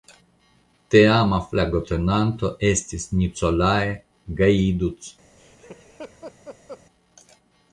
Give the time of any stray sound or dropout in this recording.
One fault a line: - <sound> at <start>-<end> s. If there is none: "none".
- laugh at 5.4-6.8 s